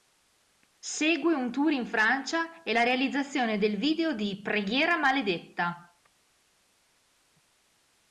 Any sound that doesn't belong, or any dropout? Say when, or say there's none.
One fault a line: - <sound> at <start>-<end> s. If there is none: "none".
none